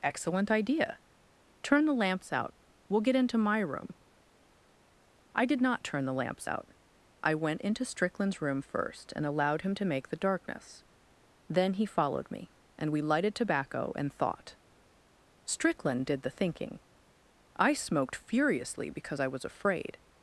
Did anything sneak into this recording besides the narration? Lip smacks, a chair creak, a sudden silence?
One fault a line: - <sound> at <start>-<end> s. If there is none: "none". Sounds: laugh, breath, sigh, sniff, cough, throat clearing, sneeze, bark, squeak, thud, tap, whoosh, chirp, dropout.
none